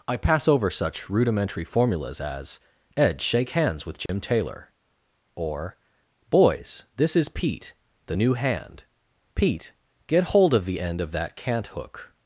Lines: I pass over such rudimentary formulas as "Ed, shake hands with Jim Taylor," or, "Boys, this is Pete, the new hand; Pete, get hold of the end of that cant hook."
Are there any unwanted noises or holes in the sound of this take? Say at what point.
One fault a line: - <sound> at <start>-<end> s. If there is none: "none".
- dropout at 4.1-4.1 s